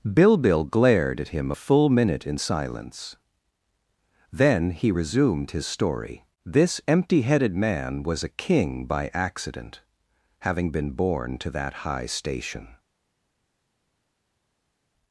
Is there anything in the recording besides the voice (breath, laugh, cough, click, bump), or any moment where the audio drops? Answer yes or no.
no